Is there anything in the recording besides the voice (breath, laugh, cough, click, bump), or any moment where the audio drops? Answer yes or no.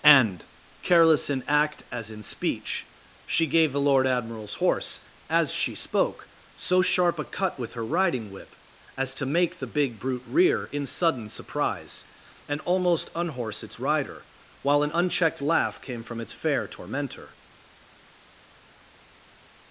no